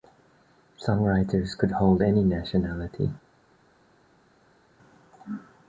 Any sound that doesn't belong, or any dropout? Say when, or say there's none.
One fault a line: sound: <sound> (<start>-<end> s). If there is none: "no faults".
no faults